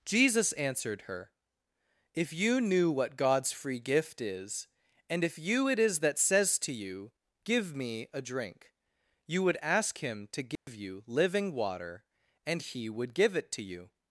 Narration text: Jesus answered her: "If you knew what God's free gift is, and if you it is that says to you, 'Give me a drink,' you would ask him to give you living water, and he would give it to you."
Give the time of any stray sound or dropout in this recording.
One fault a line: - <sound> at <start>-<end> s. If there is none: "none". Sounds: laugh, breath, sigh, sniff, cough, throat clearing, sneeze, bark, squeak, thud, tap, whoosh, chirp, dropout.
- dropout at 10.6-10.7 s